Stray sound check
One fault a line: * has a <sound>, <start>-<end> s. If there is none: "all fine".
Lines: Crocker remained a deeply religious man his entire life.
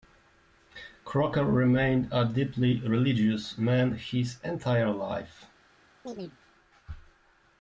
* has a chirp, 6.0-6.4 s